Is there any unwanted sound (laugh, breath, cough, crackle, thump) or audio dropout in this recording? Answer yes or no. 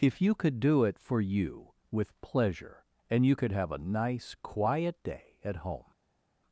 no